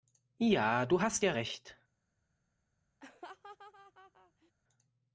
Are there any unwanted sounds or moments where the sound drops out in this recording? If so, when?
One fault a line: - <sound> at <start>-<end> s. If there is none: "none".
- laugh at 3.0-4.5 s